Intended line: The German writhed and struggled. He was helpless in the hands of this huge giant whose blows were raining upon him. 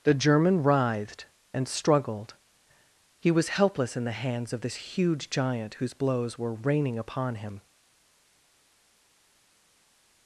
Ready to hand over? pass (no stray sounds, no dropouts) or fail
pass